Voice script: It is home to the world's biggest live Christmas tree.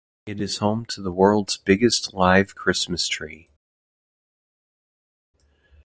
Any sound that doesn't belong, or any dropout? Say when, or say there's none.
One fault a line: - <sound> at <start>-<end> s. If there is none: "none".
none